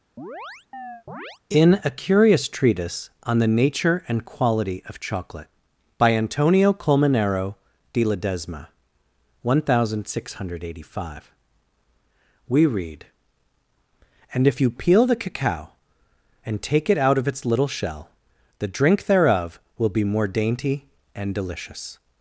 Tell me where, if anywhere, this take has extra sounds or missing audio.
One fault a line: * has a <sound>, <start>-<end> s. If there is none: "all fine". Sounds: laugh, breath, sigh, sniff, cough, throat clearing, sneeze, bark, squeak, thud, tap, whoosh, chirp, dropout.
* has a chirp, 0.2-1.4 s